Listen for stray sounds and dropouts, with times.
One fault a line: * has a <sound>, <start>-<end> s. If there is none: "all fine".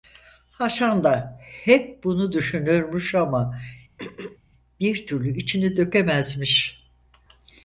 * has a throat clearing, 4.0-4.4 s